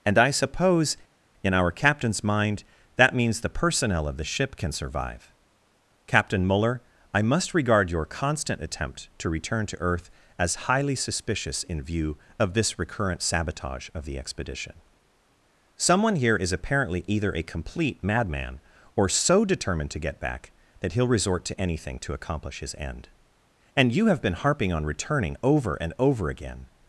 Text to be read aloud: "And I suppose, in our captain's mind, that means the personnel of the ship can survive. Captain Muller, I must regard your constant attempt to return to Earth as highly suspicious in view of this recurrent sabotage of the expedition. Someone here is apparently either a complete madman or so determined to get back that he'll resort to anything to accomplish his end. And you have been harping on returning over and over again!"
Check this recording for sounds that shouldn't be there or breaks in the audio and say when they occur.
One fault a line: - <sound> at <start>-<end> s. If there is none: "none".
none